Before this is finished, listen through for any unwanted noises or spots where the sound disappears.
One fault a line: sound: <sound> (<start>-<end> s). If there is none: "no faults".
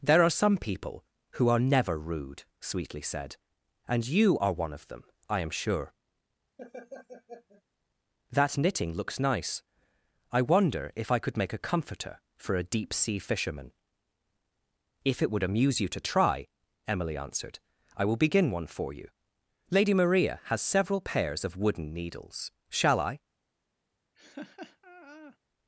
sound: laugh (6.6-7.6 s)
sound: laugh (24.1-25.4 s)